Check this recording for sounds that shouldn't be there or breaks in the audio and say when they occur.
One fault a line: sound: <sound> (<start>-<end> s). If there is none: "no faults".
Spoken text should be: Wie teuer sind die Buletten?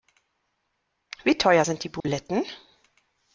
sound: dropout (2.0-2.0 s)